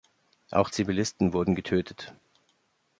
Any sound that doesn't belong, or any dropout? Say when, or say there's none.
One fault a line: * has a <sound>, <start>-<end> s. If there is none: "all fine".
all fine